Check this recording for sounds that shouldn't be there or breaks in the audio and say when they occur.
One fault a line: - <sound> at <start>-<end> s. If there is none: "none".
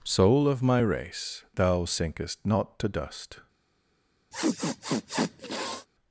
- sniff at 4.3-5.9 s